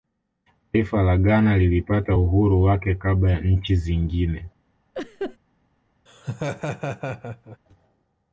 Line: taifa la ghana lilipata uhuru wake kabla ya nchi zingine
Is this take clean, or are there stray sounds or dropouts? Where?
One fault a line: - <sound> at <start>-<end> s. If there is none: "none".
- laugh at 4.9-5.4 s
- laugh at 6.1-7.6 s